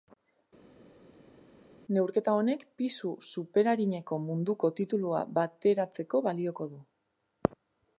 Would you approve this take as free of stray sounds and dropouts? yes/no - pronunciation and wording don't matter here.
yes